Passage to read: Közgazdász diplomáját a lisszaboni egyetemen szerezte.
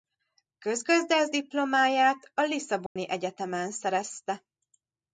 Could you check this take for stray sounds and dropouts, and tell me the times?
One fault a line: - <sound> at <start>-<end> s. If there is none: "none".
- dropout at 2.9-3.0 s